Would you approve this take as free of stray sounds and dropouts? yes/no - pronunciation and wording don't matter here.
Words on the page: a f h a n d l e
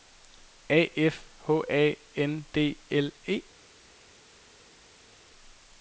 yes